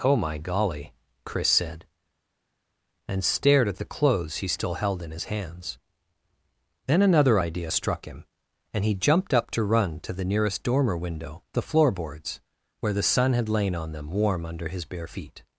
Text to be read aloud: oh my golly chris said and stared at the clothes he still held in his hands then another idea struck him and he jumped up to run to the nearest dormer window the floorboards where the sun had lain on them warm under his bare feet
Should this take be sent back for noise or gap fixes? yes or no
no